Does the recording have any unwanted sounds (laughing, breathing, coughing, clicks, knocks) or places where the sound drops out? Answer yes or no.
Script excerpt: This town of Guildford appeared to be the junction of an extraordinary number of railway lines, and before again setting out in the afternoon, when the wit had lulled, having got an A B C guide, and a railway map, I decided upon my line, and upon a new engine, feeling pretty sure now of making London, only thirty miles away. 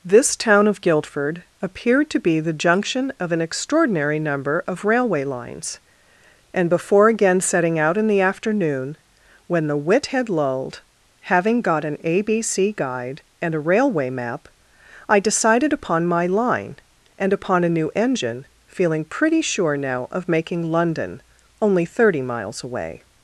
no